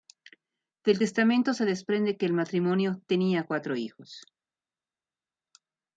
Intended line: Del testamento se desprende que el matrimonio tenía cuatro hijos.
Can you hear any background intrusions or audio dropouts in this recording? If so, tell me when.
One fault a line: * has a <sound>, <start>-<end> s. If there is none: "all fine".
all fine